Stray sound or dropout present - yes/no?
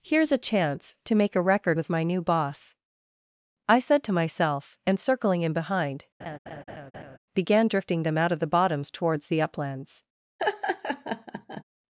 yes